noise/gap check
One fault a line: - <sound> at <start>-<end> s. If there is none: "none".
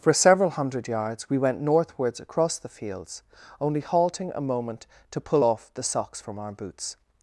none